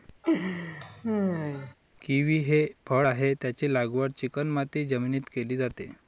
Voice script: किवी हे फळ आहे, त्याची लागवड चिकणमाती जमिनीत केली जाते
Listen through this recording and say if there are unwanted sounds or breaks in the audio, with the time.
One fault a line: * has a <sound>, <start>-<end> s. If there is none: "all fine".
* has a laugh, 0.2-1.7 s